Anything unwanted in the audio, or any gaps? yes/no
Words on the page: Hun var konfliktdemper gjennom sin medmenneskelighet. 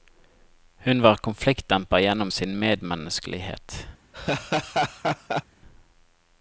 yes